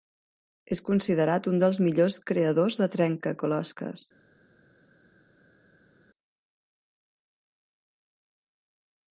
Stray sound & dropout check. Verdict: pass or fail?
pass